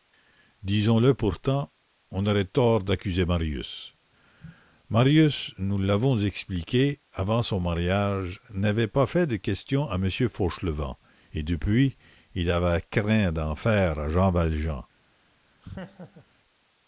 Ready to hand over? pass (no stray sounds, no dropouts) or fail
fail